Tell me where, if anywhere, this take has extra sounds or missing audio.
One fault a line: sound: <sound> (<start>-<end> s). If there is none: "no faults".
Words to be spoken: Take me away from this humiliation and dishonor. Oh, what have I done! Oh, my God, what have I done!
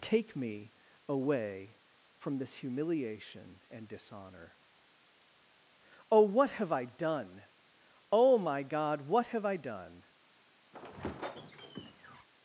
sound: squeak (10.7-12.3 s)